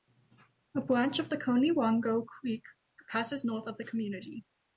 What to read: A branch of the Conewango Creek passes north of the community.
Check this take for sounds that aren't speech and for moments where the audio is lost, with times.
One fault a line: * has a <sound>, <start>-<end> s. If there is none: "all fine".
all fine